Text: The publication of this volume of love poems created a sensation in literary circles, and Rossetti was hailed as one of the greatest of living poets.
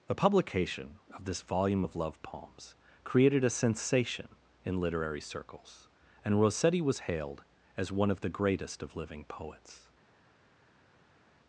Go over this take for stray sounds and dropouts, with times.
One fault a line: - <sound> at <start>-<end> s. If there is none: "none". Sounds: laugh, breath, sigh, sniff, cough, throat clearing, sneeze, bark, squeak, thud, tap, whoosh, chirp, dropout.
none